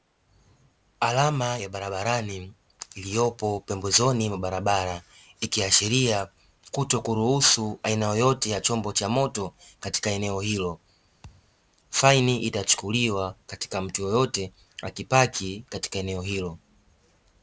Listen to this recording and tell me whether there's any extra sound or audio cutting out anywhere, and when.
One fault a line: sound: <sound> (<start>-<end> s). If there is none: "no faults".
sound: thud (11.2-11.5 s)